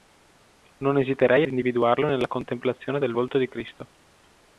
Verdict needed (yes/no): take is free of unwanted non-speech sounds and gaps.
yes